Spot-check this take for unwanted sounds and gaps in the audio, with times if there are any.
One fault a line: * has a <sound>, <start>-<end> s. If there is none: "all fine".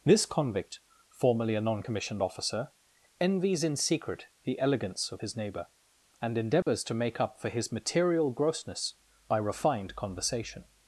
* has a dropout, 6.6-6.7 s